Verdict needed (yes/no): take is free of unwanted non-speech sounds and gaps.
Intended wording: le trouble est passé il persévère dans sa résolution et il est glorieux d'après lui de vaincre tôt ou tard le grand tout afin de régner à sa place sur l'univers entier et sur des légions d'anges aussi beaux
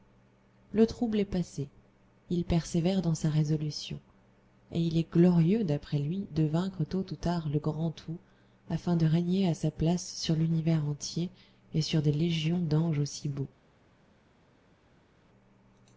yes